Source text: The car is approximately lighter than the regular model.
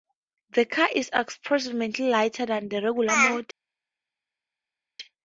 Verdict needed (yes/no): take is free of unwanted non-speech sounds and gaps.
yes